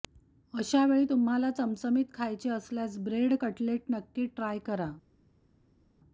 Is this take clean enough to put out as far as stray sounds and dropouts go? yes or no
yes